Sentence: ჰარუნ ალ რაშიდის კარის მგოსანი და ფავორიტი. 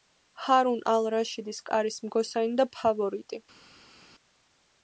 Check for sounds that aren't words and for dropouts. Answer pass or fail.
pass